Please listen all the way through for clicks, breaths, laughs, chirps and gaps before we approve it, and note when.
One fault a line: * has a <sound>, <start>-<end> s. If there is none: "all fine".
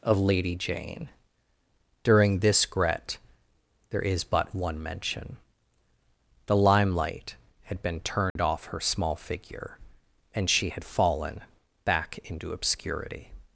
* has a dropout, 8.3-8.4 s